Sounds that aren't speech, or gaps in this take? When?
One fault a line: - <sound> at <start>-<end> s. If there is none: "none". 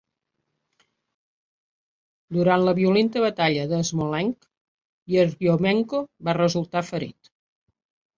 none